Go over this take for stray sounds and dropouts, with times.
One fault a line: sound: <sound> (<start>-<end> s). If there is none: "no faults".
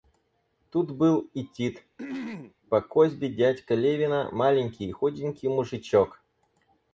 sound: throat clearing (2.0-2.5 s)